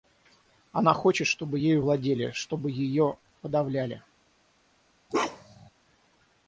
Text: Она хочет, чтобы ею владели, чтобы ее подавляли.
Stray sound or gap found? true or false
true